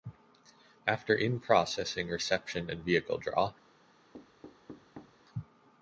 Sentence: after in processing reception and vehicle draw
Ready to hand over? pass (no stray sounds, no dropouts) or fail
fail